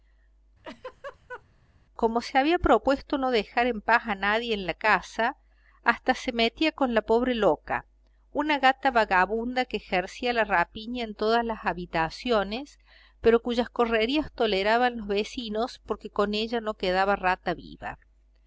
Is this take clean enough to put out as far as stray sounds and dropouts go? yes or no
no